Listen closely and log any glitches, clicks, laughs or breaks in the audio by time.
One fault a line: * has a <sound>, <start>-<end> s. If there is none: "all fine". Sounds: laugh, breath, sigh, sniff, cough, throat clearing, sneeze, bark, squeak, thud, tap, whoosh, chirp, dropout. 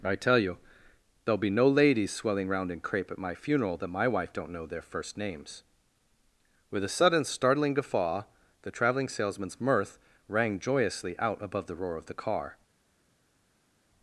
all fine